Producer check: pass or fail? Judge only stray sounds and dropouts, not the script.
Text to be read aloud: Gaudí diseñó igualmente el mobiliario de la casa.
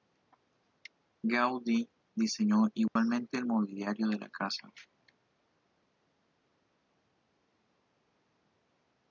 fail